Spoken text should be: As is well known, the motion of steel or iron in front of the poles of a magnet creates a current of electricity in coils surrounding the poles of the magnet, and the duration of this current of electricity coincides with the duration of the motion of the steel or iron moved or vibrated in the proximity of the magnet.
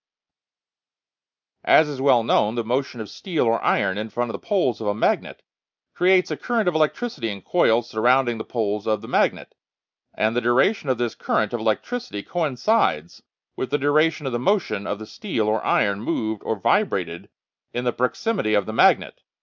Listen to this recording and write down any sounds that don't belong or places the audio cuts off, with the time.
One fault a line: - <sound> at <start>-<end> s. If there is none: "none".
none